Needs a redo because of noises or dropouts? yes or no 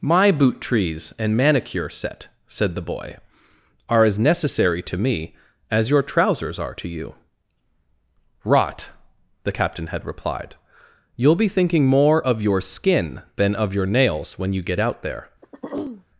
yes